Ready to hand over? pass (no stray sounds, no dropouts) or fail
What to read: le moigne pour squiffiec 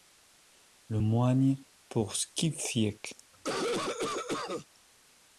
fail